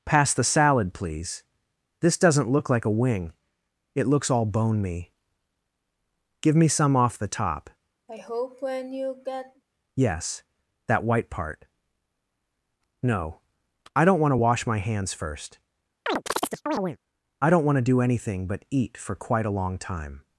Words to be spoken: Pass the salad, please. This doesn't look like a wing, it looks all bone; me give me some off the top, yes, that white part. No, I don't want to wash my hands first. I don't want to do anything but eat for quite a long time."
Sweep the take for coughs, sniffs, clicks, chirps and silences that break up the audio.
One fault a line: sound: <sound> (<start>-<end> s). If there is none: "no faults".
sound: sigh (8.1-9.6 s)
sound: chirp (16.1-17.0 s)